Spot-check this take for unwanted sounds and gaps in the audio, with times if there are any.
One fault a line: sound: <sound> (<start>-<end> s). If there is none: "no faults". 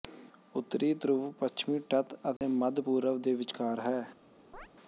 sound: dropout (2.4-2.4 s)
sound: chirp (4.5-4.7 s)